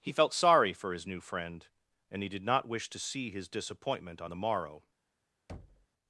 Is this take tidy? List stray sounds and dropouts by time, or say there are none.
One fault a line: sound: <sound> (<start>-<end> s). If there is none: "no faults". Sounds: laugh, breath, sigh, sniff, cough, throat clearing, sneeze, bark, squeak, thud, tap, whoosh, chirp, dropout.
sound: thud (5.5-5.9 s)